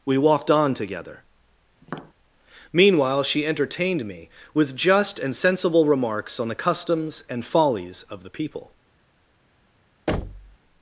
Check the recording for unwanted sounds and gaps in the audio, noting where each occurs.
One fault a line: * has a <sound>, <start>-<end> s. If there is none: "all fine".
* has a tap, 1.8-2.1 s
* has a thud, 10.1-10.6 s